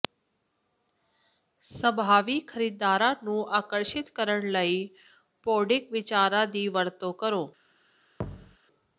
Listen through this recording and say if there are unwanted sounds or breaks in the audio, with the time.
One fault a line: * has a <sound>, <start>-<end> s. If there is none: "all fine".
* has a thud, 8.2-8.6 s